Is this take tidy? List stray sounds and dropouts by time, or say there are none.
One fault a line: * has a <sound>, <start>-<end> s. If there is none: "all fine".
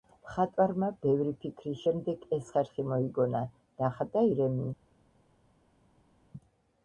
all fine